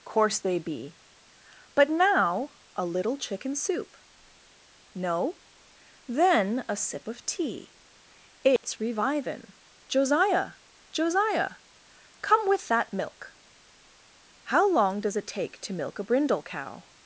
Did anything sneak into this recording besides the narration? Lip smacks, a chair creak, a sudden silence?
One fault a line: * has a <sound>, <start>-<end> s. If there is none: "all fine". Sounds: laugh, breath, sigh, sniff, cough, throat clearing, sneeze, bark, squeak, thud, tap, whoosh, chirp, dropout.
* has a dropout, 8.6-8.6 s